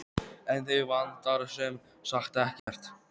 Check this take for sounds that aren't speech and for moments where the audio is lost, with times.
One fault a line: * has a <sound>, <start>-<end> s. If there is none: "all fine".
* has a dropout, 2.6-2.7 s